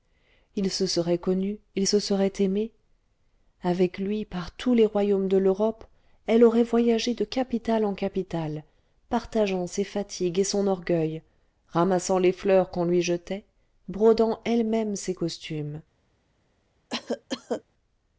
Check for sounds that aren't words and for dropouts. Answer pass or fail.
fail